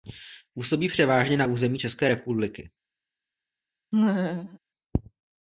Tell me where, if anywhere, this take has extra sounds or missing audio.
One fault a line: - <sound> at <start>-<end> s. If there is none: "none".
- laugh at 3.9-4.6 s